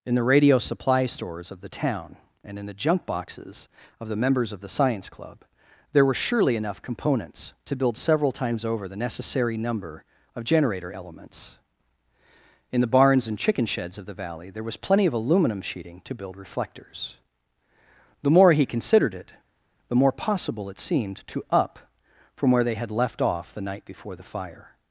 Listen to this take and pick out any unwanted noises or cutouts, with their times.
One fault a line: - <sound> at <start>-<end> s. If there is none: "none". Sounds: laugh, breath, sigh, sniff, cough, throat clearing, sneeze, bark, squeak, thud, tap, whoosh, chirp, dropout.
none